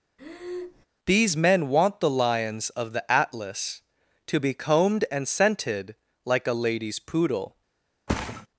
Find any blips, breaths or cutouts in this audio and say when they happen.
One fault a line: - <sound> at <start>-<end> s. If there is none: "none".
- breath at 0.2-0.9 s
- thud at 8.1-8.5 s